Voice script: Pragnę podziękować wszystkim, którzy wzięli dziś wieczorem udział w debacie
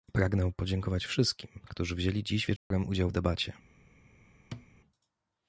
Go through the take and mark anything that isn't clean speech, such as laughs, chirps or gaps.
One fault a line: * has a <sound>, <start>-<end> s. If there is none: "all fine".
* has a dropout, 2.6-2.7 s
* has a thud, 4.5-4.7 s